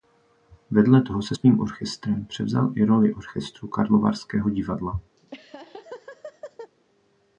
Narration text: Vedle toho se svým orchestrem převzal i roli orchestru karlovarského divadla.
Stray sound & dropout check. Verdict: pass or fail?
fail